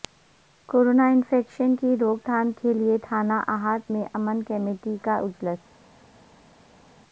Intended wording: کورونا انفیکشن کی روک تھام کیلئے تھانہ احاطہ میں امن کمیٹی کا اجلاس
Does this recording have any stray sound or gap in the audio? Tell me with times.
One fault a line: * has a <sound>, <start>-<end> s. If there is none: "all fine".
all fine